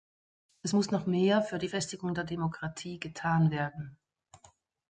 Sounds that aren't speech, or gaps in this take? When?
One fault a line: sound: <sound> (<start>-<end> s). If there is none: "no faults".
no faults